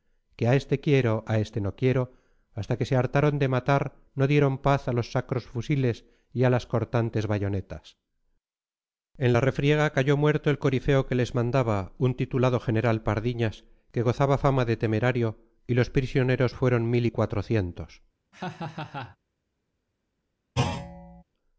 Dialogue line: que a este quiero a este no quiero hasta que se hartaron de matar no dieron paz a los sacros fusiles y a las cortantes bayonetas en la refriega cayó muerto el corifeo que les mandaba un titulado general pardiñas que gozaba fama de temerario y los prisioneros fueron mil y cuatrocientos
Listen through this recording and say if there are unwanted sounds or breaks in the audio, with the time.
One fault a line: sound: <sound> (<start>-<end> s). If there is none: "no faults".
sound: laugh (18.3-19.2 s)
sound: thud (20.6-21.2 s)